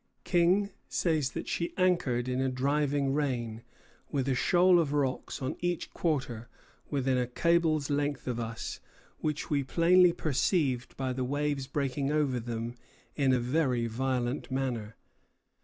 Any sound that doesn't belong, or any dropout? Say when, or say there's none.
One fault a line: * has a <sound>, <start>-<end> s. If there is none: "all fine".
all fine